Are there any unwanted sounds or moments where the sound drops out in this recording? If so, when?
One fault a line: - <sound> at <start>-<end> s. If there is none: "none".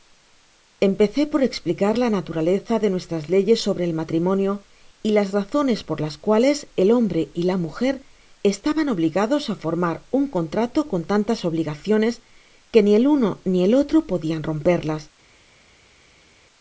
none